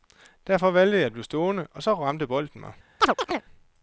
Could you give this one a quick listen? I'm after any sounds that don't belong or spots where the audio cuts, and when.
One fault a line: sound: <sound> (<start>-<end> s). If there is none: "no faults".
sound: chirp (3.0-3.5 s)